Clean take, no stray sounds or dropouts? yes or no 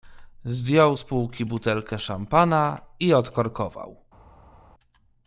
yes